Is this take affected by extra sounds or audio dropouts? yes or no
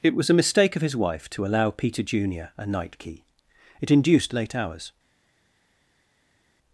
no